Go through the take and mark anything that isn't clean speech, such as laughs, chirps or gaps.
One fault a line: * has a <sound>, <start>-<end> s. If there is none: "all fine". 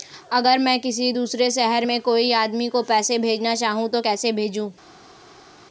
all fine